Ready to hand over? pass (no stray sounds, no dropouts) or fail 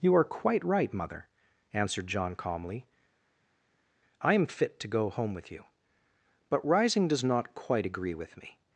pass